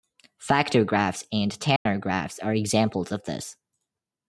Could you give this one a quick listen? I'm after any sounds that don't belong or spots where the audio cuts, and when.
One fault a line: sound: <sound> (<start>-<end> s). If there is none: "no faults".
sound: dropout (1.8-1.9 s)